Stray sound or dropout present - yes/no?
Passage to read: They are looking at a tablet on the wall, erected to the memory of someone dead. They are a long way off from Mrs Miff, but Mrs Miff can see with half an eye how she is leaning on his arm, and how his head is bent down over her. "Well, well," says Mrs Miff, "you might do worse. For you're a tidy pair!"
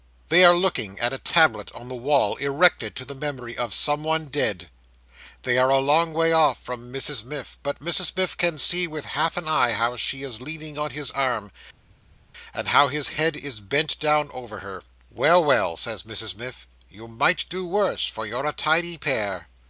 no